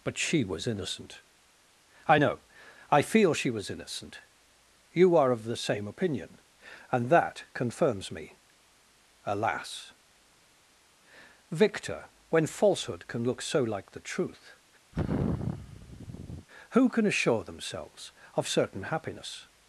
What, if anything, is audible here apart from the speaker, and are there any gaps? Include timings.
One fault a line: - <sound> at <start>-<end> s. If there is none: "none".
- sigh at 14.9-16.5 s